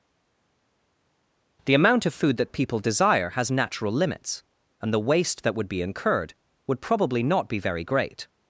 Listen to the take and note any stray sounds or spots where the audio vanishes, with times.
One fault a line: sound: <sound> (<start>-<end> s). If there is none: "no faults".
no faults